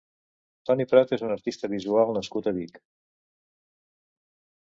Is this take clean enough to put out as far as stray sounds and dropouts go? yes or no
yes